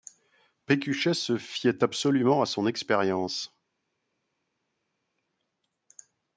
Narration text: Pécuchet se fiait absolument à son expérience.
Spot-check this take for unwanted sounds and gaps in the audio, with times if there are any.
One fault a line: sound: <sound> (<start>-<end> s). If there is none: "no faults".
no faults